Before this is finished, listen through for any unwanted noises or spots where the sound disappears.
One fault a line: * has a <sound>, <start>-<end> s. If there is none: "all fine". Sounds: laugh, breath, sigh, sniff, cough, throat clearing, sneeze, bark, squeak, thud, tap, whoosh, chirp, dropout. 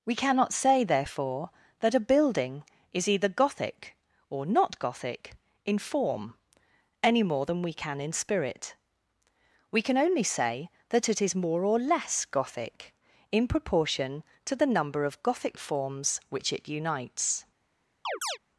* has a chirp, 18.0-18.4 s